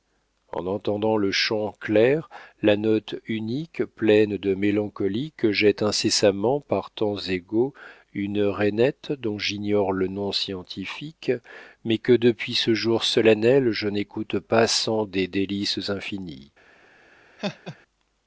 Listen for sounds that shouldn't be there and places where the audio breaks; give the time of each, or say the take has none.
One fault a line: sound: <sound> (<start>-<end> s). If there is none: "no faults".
sound: laugh (17.4-17.8 s)